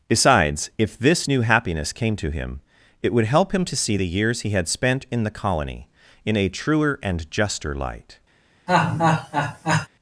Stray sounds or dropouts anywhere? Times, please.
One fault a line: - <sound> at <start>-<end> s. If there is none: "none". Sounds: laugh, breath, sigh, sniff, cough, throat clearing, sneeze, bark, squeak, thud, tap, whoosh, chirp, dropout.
- laugh at 8.7-9.9 s